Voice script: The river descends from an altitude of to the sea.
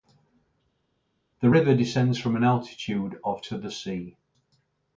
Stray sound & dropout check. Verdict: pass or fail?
pass